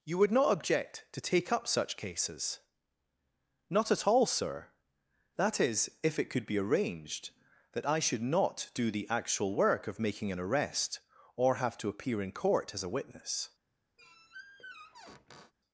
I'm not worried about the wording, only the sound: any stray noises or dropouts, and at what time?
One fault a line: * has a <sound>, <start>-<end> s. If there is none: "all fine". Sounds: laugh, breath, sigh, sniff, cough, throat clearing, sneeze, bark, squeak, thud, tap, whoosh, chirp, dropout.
* has a squeak, 14.0-15.5 s